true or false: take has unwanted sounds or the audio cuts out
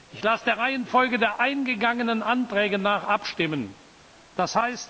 false